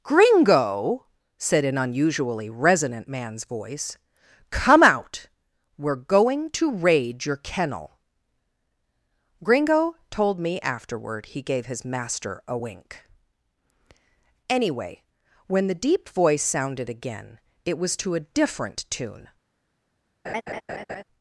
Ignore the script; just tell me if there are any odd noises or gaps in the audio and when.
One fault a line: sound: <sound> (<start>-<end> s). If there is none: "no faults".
sound: laugh (20.2-21.0 s)